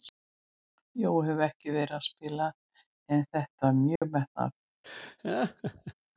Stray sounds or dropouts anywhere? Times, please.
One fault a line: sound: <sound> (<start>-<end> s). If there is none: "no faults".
sound: dropout (4.0-4.0 s)
sound: laugh (4.8-5.9 s)